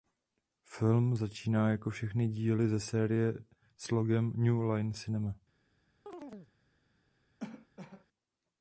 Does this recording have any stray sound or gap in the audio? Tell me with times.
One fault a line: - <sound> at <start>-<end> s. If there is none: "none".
- chirp at 6.1-6.5 s
- cough at 7.4-8.1 s